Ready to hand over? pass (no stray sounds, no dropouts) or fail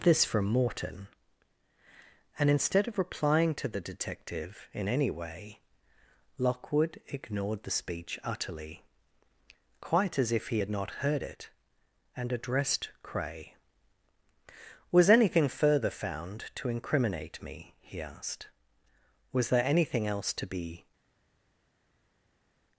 pass